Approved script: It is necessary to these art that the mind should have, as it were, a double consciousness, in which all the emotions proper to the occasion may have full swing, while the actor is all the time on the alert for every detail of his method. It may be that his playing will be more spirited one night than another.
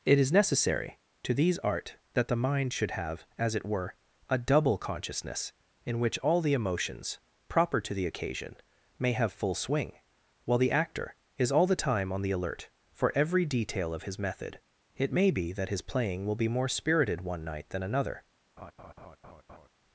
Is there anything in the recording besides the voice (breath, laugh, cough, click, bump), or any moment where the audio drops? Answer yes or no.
yes